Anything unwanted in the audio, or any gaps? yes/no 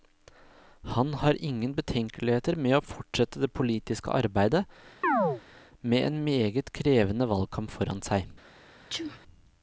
yes